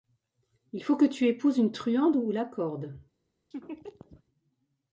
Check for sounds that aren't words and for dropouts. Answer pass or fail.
fail